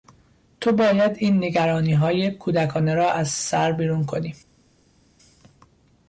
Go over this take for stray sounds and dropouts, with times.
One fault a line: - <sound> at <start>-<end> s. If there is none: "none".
none